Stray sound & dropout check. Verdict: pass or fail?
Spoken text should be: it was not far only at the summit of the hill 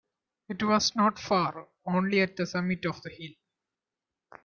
pass